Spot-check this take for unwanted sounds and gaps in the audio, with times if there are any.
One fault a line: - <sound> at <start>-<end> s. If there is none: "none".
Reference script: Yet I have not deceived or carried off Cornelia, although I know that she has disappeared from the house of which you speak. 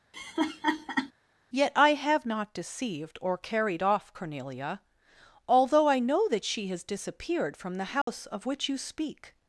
- laugh at 0.1-1.1 s
- dropout at 8.0-8.1 s